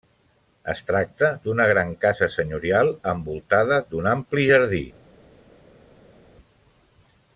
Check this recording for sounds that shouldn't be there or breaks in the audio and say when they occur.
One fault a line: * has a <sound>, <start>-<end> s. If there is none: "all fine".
all fine